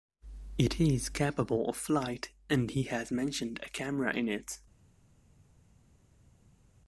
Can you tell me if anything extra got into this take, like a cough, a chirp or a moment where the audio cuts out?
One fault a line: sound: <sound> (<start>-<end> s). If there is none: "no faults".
no faults